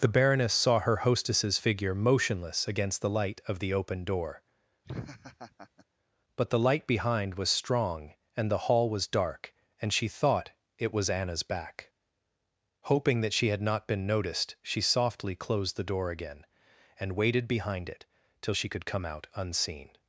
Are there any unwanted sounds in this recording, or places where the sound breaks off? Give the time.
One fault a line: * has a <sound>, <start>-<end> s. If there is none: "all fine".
* has a laugh, 4.8-5.9 s